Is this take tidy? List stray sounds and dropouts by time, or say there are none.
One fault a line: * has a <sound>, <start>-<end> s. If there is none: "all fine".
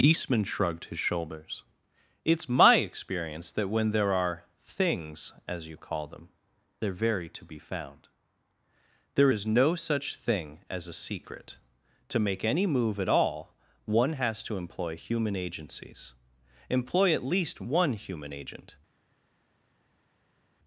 all fine